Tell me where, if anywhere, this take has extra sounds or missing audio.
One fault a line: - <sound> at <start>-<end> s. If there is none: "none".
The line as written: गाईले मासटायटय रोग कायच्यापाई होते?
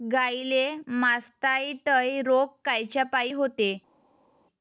none